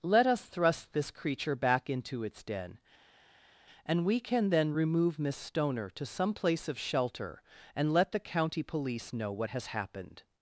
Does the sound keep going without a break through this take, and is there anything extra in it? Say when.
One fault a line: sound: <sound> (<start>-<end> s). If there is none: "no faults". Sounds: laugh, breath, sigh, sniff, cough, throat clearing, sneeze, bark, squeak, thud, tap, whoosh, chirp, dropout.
no faults